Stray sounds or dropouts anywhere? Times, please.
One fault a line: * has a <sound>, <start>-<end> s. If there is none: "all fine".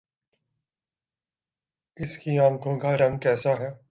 all fine